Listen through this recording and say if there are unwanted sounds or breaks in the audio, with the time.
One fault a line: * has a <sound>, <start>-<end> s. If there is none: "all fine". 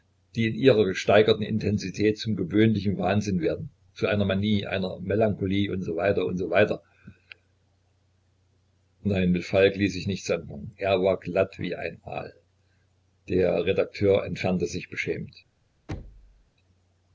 * has a thud, 15.9-16.5 s